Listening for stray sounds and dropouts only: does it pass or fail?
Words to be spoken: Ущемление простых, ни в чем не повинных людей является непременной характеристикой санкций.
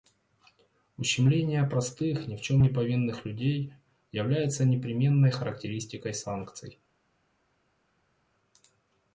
pass